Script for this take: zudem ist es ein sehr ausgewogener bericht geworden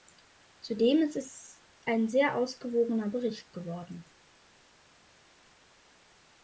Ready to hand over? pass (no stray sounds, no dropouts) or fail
pass